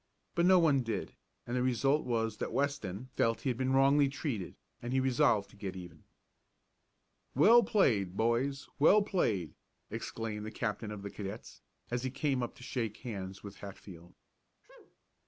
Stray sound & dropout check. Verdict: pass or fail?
fail